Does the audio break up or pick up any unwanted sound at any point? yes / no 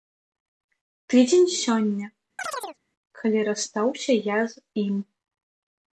yes